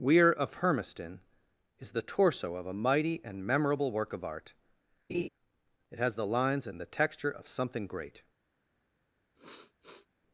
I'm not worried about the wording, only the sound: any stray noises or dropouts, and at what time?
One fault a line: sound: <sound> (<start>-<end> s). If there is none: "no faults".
sound: laugh (5.1-5.3 s)
sound: sniff (9.3-10.1 s)